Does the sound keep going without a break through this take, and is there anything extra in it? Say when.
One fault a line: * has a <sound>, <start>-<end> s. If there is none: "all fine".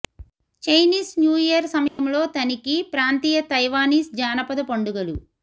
* has a dropout, 1.9-2.0 s